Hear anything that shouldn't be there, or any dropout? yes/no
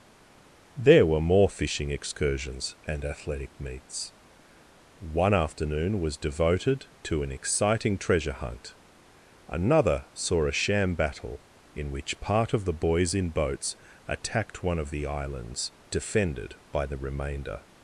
no